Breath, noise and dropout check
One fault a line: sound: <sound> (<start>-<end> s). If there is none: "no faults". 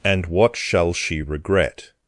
no faults